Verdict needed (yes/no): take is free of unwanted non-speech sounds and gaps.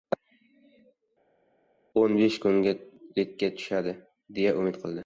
yes